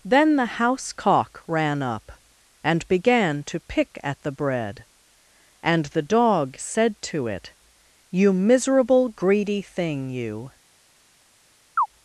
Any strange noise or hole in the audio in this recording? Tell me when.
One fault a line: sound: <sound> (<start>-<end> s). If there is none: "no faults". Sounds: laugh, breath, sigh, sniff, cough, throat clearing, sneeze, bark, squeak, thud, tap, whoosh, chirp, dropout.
sound: chirp (11.8-11.9 s)